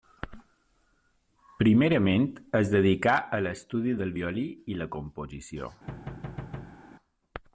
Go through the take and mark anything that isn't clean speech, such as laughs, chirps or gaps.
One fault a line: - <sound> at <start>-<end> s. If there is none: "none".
- thud at 5.9-6.8 s